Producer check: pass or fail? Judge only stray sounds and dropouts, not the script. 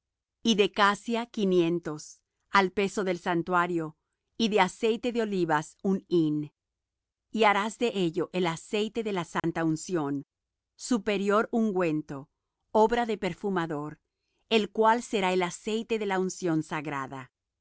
fail